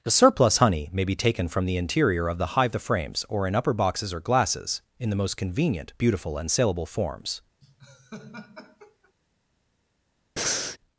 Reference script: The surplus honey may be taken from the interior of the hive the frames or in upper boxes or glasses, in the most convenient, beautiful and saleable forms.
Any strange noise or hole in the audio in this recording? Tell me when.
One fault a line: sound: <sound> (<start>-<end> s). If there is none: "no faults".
sound: laugh (7.6-9.1 s)
sound: breath (10.4-10.8 s)